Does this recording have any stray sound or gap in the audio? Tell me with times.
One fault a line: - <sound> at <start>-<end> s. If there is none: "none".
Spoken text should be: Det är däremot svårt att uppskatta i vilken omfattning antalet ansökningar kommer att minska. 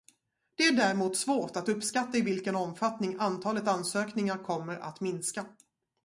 none